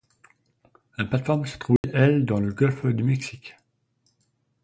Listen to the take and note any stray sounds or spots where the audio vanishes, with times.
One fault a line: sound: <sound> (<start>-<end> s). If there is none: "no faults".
sound: dropout (1.8-1.8 s)